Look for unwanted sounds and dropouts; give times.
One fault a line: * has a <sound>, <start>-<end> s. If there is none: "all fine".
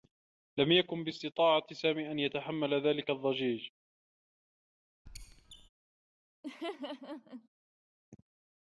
* has a squeak, 5.1-5.7 s
* has a laugh, 6.4-7.5 s